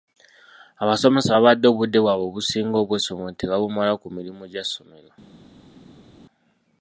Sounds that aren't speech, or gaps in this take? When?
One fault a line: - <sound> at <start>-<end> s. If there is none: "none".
none